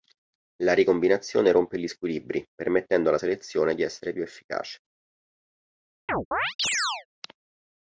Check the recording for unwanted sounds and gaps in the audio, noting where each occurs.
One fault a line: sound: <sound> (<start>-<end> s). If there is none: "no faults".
sound: chirp (6.1-7.1 s)